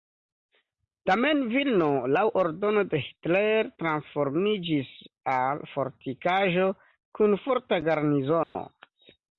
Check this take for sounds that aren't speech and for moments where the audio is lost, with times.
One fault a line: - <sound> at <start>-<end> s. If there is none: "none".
- dropout at 8.4-8.6 s